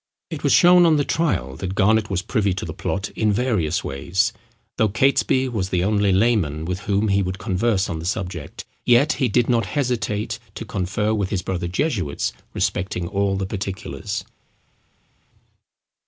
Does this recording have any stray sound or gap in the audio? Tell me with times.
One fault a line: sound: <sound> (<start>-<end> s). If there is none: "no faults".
no faults